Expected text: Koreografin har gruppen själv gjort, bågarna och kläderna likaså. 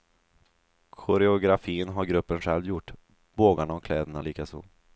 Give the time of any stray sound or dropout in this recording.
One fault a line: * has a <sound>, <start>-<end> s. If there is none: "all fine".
all fine